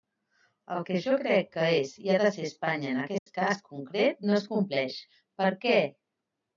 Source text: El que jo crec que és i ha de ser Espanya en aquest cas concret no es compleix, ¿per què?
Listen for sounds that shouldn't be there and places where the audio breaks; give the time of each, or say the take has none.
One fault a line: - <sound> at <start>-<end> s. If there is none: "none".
- dropout at 3.2-3.3 s